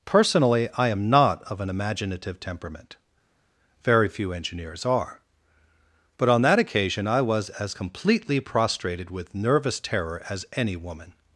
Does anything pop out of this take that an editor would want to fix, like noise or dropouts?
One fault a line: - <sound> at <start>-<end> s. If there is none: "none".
none